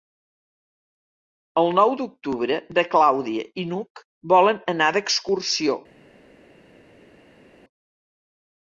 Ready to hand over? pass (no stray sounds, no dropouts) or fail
pass